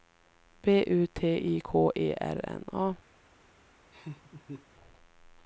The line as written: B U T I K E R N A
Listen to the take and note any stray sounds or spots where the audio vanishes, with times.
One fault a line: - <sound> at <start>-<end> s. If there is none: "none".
- laugh at 3.9-4.7 s